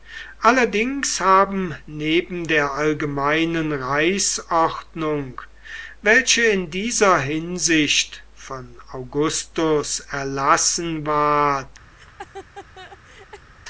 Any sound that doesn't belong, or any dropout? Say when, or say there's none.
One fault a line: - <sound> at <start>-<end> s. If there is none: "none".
- laugh at 11.9-13.5 s